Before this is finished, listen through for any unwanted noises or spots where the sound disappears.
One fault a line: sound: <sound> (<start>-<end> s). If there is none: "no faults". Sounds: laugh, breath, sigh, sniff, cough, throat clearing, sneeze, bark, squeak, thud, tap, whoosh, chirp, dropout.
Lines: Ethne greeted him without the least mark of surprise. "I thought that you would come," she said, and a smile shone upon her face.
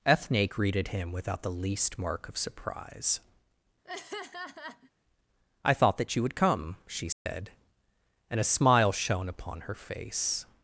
sound: laugh (3.8-4.9 s)
sound: dropout (7.1-7.3 s)